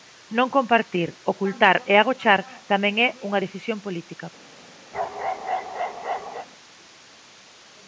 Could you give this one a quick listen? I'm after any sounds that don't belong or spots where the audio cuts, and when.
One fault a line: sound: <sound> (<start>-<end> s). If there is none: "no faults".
sound: bark (4.9-6.5 s)